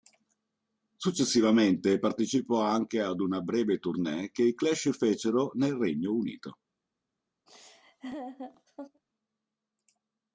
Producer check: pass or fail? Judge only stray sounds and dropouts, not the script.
fail